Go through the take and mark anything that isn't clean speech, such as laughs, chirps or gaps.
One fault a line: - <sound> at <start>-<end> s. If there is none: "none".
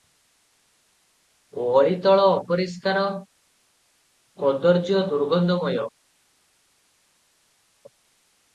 none